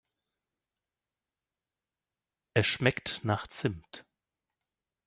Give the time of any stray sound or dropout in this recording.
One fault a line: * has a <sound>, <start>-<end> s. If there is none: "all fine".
all fine